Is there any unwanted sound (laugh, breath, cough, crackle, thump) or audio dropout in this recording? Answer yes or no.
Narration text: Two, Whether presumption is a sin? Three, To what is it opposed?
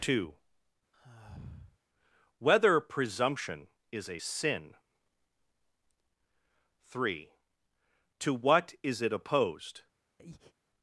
yes